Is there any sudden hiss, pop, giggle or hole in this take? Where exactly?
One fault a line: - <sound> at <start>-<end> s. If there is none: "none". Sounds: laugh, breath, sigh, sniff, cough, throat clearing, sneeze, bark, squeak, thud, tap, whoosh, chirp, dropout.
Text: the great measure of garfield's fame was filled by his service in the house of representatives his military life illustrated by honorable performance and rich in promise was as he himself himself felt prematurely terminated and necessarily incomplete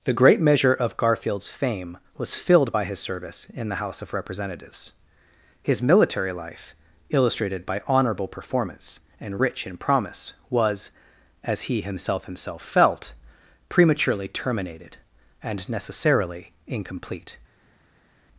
none